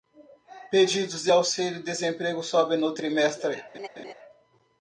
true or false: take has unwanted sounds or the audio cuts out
true